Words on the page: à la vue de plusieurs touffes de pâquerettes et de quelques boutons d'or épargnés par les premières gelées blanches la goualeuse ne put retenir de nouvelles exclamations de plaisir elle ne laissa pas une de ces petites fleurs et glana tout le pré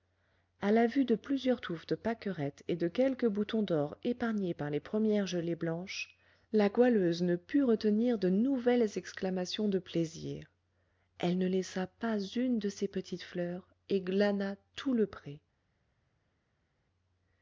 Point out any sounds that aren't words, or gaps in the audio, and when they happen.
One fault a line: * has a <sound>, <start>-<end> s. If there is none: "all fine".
all fine